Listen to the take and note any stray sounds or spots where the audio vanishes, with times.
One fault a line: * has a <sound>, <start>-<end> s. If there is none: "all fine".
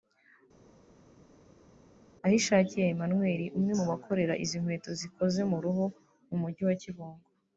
all fine